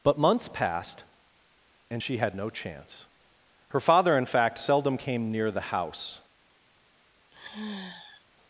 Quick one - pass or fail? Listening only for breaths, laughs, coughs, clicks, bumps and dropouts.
fail